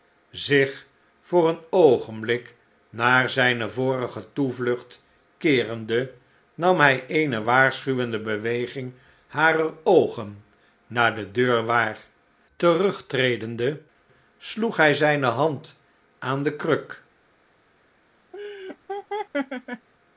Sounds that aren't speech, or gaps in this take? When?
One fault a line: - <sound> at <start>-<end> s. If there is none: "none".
- laugh at 18.3-19.9 s